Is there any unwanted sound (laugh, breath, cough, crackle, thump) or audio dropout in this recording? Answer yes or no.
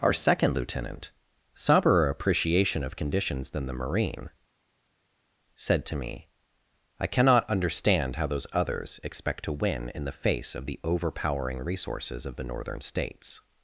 no